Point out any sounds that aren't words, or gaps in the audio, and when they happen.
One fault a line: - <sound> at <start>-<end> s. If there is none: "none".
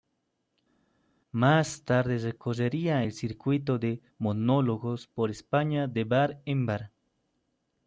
none